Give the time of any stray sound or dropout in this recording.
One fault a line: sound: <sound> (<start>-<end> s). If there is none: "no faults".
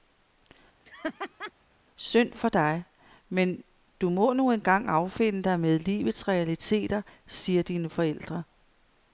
sound: laugh (0.8-1.5 s)